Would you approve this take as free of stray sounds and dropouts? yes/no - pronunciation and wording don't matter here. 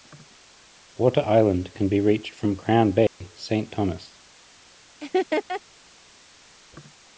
no